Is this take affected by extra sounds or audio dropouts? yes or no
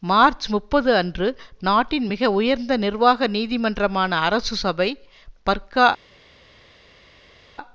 no